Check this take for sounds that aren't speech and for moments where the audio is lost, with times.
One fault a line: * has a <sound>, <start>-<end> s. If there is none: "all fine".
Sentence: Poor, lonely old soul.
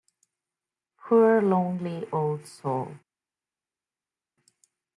all fine